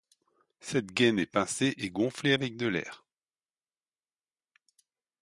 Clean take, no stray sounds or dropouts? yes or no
yes